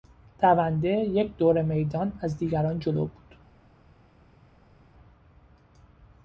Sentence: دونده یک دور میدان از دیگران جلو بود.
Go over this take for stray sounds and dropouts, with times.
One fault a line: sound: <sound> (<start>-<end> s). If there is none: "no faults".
no faults